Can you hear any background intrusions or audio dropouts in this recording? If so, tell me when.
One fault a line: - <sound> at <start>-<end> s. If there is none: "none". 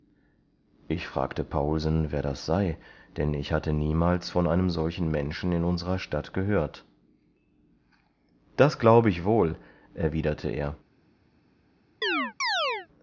- chirp at 12.0-12.9 s